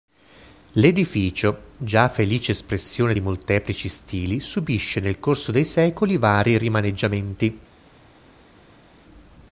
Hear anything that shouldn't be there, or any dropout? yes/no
no